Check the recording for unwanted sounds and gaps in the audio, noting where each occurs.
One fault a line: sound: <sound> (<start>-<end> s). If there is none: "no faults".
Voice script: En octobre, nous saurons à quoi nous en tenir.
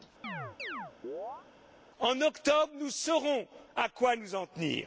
sound: chirp (0.2-1.5 s)